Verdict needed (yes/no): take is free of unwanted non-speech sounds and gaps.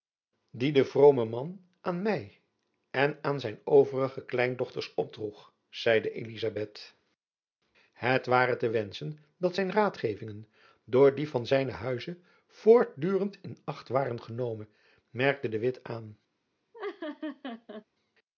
no